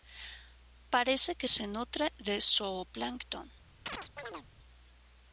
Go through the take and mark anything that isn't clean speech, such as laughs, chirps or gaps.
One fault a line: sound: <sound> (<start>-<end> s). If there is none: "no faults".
sound: chirp (3.9-4.5 s)